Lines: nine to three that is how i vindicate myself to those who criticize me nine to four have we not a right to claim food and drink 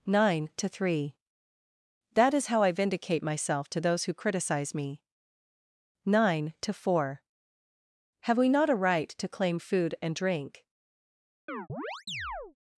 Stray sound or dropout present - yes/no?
yes